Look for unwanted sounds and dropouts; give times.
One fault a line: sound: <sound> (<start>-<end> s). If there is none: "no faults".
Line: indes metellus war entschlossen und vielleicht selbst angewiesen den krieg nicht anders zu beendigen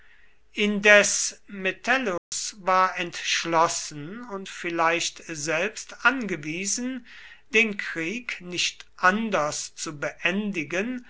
sound: dropout (2.2-2.3 s)